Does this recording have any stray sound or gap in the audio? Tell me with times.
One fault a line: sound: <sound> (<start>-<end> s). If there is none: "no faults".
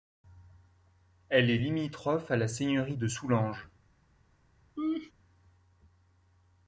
sound: laugh (4.8-5.1 s)